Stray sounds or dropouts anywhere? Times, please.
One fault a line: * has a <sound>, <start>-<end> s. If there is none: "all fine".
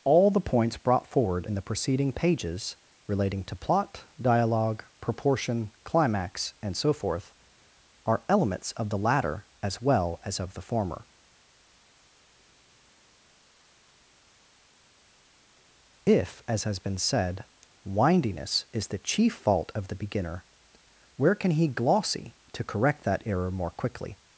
all fine